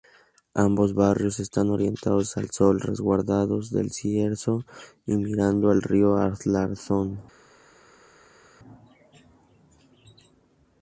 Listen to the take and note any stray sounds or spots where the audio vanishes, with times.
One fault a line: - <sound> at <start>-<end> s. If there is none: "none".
none